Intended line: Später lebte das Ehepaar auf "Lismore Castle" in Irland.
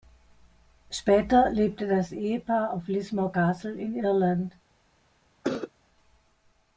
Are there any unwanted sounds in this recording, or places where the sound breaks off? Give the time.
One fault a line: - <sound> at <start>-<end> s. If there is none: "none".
- cough at 5.4-5.7 s